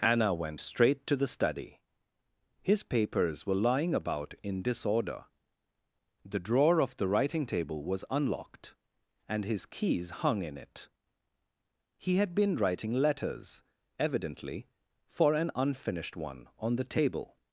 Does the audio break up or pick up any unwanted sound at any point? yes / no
no